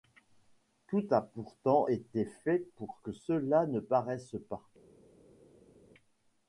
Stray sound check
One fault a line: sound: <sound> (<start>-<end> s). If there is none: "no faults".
no faults